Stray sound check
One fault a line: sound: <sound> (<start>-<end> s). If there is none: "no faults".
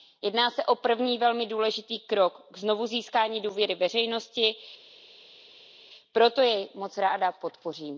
no faults